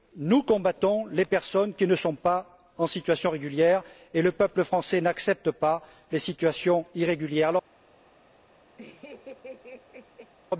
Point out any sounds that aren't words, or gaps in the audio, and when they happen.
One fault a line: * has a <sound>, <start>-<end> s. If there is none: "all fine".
* has a laugh, 8.8-10.3 s